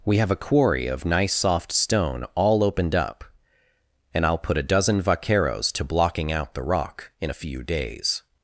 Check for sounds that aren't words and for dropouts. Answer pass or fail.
pass